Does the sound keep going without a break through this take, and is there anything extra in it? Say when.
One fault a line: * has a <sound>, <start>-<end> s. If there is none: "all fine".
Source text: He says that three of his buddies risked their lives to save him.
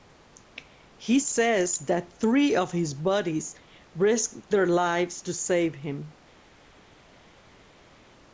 all fine